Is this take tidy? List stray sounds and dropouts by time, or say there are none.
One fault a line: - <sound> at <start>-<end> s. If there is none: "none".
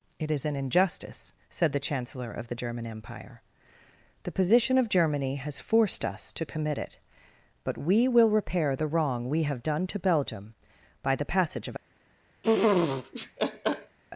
- laugh at 12.4-14.0 s